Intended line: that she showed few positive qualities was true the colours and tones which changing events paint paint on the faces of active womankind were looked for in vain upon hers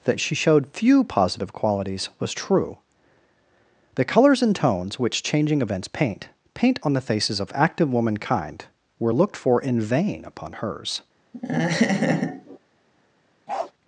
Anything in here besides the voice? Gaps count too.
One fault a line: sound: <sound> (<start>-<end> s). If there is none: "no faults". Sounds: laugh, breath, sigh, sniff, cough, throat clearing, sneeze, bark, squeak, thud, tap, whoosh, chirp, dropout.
sound: laugh (11.3-12.6 s)
sound: bark (13.5-13.7 s)